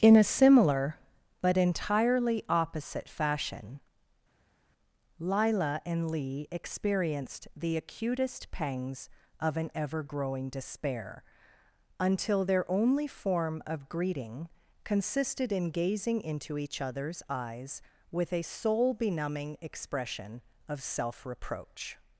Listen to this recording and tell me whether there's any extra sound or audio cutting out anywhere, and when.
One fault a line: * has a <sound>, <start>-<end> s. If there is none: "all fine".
all fine